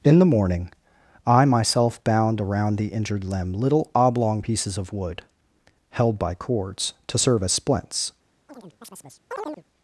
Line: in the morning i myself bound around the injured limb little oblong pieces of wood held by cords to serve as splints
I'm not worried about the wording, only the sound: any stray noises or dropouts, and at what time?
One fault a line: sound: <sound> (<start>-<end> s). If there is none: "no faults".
sound: chirp (8.5-9.6 s)